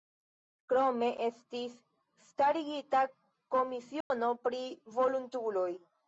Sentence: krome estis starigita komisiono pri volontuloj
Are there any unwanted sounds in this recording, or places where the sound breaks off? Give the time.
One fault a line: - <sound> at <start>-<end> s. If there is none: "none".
- dropout at 4.0-4.1 s